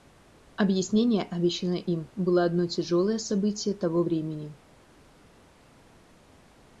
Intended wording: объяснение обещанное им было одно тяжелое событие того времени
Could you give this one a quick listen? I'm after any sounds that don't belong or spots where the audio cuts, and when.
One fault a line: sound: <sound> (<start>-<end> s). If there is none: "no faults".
no faults